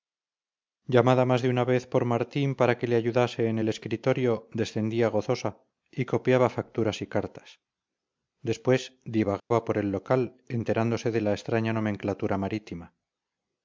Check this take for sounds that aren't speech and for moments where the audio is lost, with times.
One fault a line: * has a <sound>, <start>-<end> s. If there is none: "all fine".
* has a dropout, 9.4-9.5 s